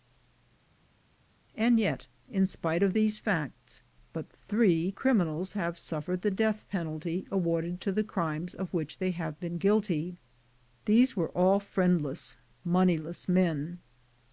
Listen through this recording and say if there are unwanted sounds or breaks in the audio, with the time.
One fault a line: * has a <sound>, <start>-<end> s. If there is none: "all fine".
all fine